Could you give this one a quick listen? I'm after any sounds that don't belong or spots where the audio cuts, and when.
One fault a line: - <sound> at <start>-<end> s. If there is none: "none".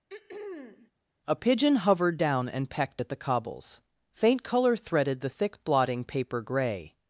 - throat clearing at 0.1-0.9 s